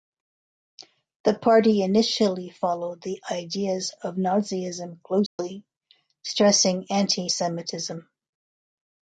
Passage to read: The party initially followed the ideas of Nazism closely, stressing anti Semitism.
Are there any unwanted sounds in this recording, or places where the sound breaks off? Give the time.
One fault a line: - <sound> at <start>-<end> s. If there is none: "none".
- dropout at 5.3-5.4 s